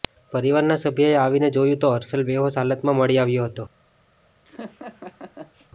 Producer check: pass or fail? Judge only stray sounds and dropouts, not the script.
fail